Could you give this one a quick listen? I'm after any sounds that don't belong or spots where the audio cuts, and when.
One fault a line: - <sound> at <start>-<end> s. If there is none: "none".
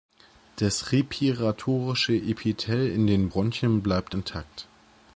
none